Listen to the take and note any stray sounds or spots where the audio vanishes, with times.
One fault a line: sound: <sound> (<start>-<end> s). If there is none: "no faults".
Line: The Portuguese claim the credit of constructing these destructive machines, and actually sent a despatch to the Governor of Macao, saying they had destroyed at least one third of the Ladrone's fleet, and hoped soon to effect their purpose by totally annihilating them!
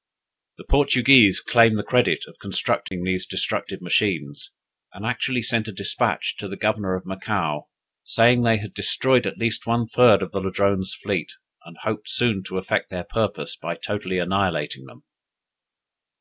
sound: dropout (2.9-2.9 s)